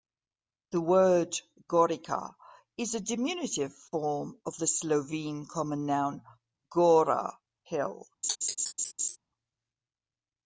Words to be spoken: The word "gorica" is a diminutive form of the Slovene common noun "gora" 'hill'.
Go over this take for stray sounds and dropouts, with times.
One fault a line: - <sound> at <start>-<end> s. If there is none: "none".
- laugh at 8.2-9.2 s